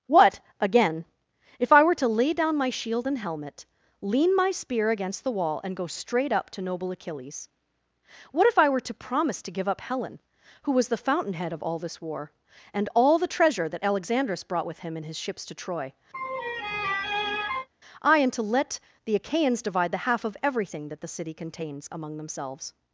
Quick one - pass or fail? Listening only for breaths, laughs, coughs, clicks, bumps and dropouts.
fail